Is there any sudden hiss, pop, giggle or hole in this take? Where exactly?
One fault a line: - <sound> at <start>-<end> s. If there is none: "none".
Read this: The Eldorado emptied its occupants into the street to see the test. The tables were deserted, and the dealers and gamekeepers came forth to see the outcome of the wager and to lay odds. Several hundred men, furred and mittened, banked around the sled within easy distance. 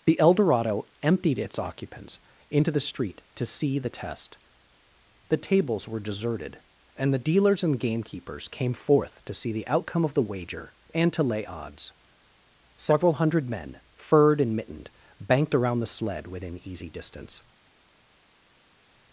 none